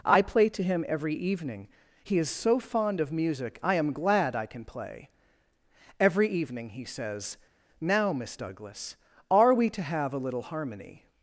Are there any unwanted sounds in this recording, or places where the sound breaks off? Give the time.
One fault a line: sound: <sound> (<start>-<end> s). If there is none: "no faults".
no faults